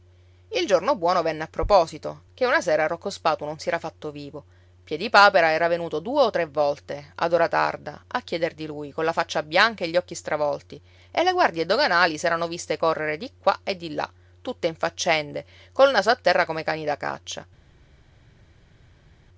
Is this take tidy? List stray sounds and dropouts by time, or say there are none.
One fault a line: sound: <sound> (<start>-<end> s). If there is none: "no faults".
no faults